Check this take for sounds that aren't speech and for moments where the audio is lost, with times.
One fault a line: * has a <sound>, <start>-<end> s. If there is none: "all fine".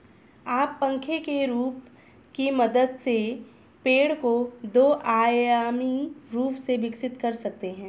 all fine